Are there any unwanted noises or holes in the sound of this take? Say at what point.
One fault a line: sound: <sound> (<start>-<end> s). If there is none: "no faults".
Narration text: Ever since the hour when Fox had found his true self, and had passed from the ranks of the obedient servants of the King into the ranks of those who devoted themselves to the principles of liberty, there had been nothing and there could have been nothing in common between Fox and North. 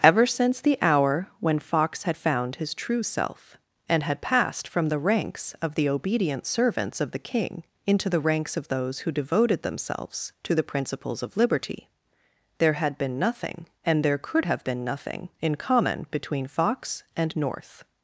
no faults